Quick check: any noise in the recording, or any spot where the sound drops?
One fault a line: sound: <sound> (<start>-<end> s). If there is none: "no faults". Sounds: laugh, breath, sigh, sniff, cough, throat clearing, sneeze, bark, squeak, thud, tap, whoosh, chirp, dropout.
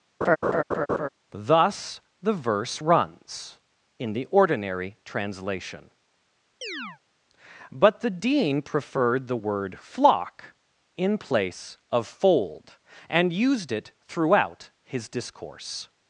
sound: laugh (0.2-1.1 s)
sound: chirp (6.6-7.0 s)